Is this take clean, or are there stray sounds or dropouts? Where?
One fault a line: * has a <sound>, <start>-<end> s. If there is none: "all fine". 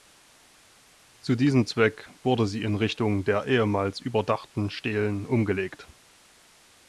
all fine